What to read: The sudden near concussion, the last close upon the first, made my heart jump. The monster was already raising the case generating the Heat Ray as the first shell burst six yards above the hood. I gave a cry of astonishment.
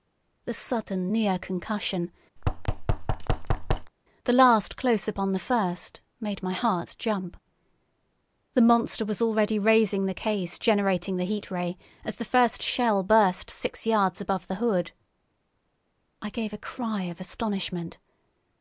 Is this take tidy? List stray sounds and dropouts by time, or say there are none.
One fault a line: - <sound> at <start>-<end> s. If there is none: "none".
- thud at 2.4-3.9 s